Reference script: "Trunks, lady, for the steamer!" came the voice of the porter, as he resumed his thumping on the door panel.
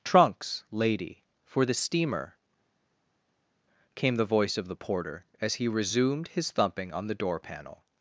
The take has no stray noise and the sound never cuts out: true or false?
true